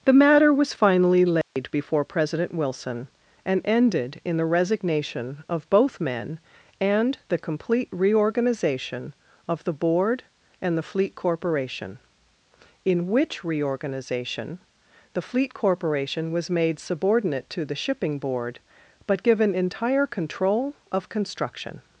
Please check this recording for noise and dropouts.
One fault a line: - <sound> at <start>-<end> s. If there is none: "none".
- dropout at 1.4-1.6 s